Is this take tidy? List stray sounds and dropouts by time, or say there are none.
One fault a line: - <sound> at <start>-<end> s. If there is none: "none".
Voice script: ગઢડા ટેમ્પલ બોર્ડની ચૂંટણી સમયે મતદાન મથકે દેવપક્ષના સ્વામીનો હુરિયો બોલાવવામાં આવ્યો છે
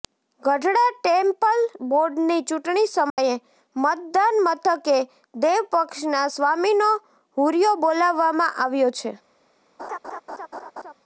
- dropout at 3.1-3.2 s
- laugh at 9.8-10.9 s